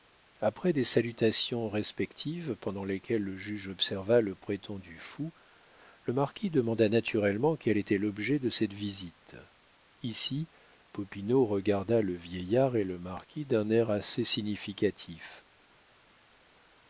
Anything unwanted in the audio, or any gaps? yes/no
no